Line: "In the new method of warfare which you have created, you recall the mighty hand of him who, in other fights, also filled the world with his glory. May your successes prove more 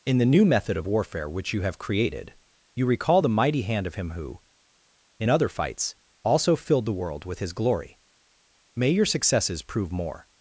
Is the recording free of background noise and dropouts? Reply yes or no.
yes